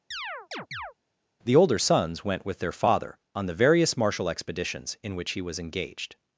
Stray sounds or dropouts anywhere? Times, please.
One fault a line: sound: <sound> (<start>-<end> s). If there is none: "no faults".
sound: chirp (0.1-0.9 s)